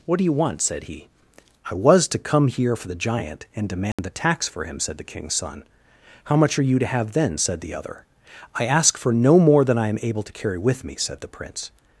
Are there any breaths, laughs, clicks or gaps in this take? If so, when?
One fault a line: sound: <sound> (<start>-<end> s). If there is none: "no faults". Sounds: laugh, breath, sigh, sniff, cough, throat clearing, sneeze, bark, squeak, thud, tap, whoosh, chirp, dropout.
sound: dropout (3.9-4.0 s)